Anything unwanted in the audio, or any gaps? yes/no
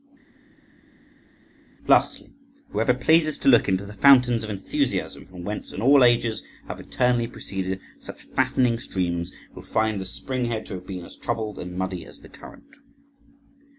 no